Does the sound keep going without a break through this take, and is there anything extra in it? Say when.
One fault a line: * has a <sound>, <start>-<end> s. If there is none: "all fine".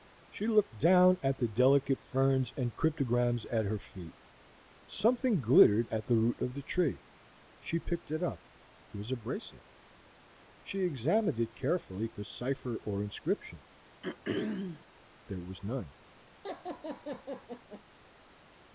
* has a throat clearing, 14.0-14.9 s
* has a laugh, 16.4-17.8 s